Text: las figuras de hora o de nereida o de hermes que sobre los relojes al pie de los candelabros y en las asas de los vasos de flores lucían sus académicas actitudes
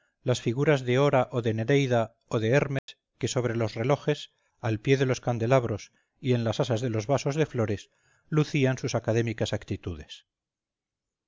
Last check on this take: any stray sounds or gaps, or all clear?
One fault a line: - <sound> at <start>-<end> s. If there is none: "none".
- dropout at 2.8-2.9 s